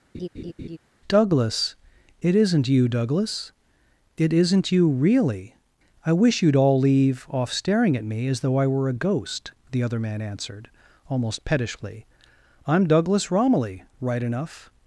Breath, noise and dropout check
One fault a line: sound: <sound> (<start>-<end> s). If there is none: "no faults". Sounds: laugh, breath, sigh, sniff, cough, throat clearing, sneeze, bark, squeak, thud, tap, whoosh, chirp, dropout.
sound: laugh (0.1-0.8 s)